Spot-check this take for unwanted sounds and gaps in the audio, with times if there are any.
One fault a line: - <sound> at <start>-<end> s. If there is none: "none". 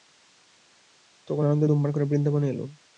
none